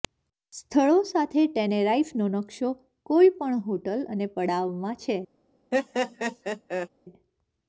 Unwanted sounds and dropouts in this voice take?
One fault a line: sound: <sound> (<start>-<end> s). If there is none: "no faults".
sound: laugh (5.7-6.9 s)